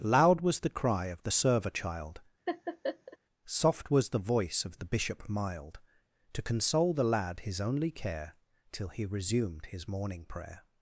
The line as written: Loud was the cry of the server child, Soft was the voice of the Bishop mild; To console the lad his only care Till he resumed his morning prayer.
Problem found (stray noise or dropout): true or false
true